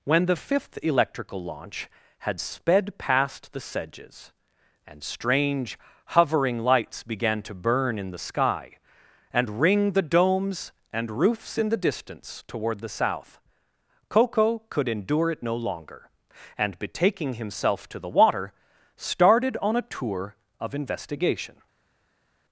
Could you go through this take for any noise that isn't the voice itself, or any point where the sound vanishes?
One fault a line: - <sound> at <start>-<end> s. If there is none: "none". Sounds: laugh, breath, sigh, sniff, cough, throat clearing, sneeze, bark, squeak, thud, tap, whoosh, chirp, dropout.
none